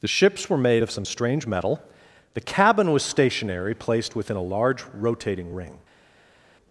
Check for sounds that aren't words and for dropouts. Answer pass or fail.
pass